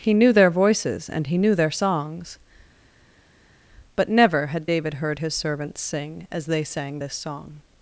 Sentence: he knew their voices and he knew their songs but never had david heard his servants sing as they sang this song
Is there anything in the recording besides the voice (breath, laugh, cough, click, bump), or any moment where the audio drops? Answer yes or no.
no